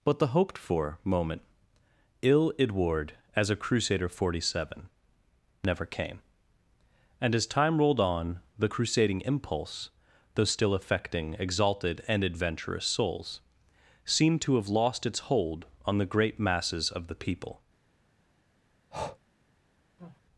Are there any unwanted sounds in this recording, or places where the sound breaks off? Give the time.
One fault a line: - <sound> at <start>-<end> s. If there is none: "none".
- breath at 18.9-19.2 s
- sneeze at 20.0-20.2 s